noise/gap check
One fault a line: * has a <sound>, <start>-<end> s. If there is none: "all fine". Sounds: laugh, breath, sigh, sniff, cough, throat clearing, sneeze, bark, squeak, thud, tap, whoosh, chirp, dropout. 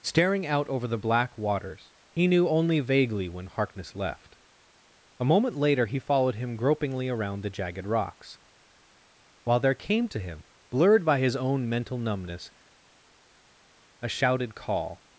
all fine